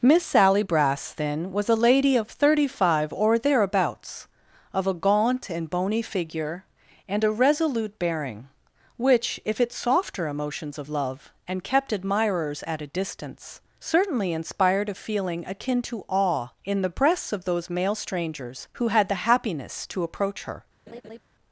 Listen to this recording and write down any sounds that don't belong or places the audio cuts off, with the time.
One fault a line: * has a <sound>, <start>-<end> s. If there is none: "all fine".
* has a laugh, 20.9-21.2 s